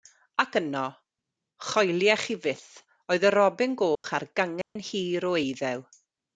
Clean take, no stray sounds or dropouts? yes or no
no